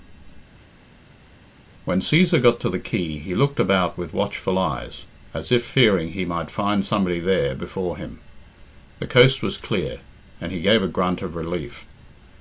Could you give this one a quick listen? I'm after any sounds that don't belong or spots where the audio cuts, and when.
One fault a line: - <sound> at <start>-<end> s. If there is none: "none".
none